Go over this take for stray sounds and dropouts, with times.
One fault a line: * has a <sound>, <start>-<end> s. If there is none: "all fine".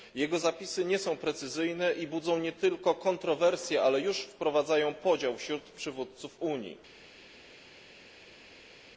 all fine